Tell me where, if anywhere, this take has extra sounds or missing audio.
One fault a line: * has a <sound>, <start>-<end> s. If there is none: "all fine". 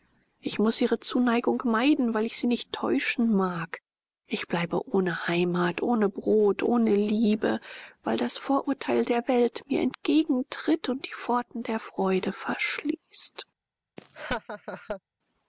* has a laugh, 14.0-15.0 s